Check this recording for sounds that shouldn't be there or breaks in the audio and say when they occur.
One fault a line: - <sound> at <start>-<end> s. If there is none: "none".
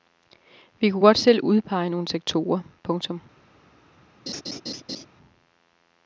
- laugh at 4.3-5.1 s